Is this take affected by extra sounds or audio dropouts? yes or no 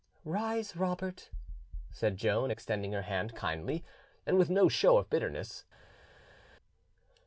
no